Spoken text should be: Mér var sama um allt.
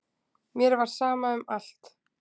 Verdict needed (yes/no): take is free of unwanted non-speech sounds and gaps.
yes